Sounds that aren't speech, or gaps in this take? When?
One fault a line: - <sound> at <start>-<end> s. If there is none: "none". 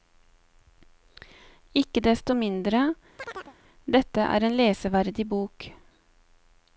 - chirp at 3.2-3.6 s